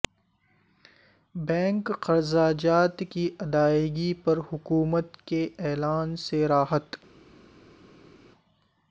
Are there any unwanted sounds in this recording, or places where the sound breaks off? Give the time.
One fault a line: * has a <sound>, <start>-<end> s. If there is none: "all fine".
all fine